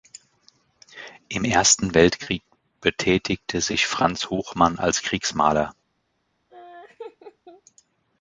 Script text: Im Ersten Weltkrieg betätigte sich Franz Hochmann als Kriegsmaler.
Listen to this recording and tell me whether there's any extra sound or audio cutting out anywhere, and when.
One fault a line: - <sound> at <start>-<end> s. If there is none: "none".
- laugh at 6.5-7.6 s